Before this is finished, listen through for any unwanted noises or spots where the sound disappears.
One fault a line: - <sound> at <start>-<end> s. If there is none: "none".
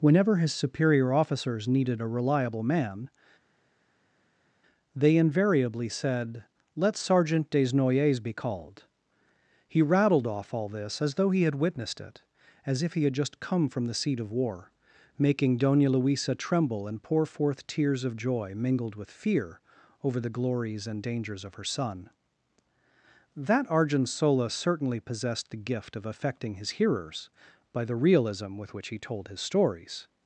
none